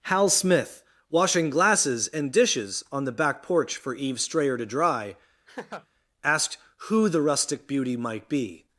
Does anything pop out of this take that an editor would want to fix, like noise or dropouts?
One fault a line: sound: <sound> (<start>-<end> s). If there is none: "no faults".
sound: laugh (5.5-5.9 s)